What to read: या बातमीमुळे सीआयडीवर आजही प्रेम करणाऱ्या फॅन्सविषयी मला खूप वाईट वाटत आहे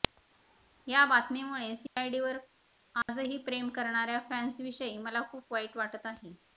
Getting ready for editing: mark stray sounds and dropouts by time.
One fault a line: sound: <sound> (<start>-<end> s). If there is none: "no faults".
sound: dropout (1.9-2.0 s)
sound: dropout (3.0-3.1 s)